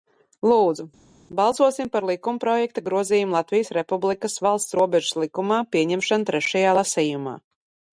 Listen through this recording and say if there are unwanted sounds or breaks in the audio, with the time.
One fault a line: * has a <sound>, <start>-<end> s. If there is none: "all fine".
all fine